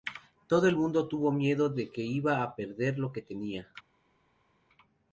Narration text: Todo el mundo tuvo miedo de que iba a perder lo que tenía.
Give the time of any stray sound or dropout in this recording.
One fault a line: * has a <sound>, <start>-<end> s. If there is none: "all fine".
all fine